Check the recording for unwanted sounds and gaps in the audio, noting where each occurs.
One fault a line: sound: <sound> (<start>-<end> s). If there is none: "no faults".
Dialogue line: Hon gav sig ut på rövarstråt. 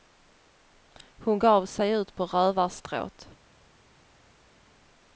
no faults